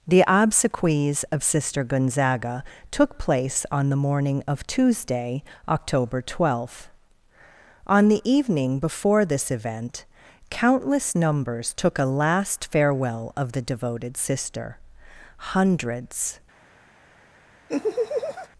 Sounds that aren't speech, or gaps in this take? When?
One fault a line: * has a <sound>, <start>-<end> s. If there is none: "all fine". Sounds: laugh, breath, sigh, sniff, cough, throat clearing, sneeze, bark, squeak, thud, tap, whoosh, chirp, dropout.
* has a laugh, 17.7-18.5 s